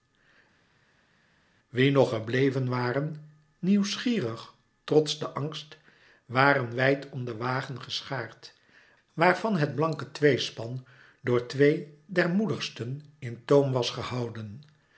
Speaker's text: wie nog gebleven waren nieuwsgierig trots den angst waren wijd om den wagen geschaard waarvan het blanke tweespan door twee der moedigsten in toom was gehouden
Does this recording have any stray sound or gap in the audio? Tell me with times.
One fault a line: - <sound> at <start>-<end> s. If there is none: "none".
none